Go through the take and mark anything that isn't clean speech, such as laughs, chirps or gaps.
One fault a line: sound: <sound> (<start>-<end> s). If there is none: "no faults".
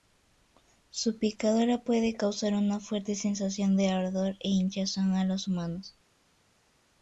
no faults